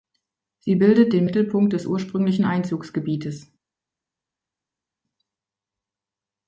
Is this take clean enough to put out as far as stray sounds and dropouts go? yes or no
yes